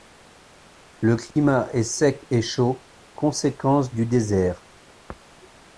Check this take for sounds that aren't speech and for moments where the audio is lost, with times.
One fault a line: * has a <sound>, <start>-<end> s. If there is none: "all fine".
* has a dropout, 1.3-1.4 s